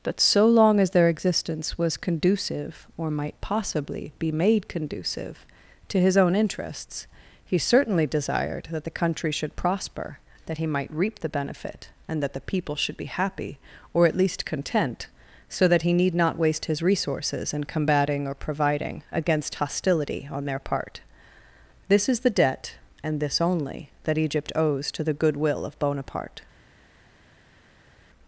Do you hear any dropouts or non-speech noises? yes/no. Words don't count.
no